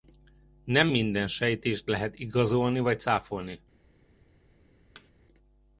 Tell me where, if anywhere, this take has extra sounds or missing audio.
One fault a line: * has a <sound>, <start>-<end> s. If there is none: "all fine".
* has a thud, 4.9-5.1 s